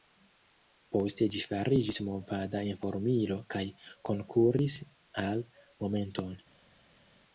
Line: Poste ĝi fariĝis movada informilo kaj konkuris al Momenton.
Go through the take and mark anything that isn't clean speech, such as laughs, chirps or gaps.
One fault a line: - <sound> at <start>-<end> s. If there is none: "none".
none